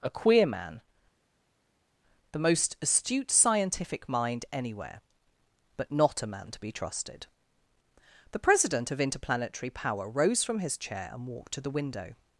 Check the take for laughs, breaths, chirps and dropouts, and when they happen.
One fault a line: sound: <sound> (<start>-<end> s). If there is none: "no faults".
no faults